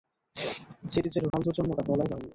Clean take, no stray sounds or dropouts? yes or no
no